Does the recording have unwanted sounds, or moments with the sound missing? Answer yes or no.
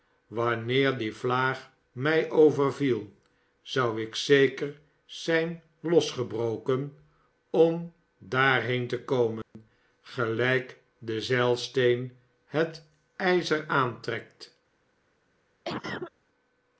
yes